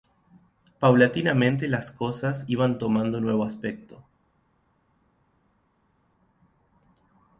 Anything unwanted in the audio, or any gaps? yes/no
no